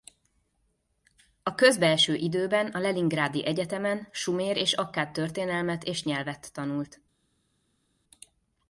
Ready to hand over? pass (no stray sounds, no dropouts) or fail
pass